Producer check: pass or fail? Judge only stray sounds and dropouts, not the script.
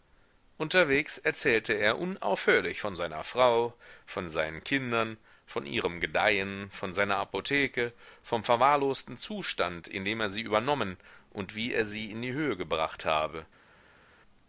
pass